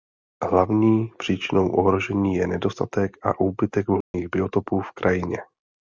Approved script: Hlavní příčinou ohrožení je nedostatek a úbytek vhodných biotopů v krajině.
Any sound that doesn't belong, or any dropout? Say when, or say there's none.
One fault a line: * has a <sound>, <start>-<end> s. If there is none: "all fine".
* has a dropout, 4.0-4.1 s